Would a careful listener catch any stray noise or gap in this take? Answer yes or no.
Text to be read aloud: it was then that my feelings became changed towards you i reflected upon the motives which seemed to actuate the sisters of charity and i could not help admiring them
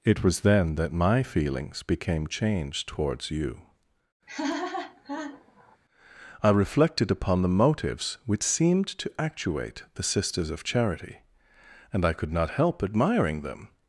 yes